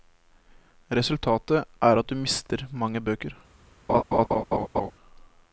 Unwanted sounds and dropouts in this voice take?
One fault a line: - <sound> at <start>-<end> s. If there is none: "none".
- laugh at 3.9-4.9 s